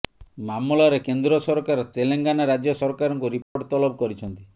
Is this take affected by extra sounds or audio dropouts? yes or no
yes